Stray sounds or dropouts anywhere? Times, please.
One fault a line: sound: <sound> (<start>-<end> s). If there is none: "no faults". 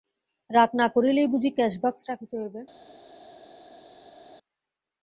no faults